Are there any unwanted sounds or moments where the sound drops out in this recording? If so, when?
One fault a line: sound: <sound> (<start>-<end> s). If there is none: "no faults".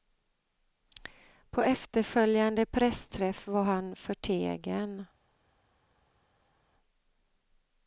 no faults